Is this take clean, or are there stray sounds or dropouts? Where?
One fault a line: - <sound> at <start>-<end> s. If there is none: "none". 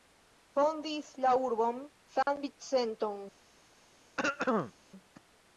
- dropout at 2.2-2.3 s
- throat clearing at 4.2-4.7 s